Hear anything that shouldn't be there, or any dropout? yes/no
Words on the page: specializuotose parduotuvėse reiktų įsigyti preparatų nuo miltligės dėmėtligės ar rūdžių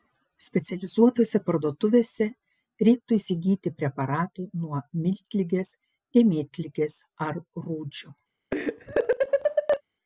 yes